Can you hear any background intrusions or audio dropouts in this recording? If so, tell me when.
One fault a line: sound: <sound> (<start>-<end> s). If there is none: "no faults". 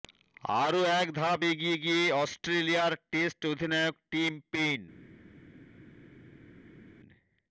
no faults